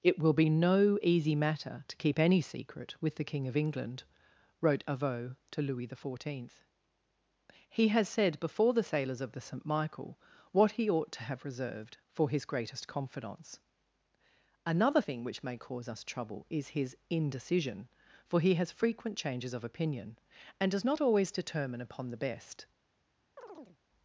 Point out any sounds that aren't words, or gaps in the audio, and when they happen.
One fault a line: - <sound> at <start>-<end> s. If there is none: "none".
- chirp at 23.4-23.8 s